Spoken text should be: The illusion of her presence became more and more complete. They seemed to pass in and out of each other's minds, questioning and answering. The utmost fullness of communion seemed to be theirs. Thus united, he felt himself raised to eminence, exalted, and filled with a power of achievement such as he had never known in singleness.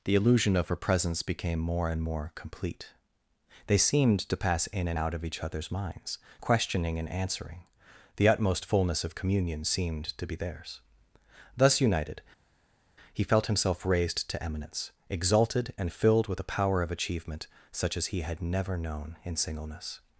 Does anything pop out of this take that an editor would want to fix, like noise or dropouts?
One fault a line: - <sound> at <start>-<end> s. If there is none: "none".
none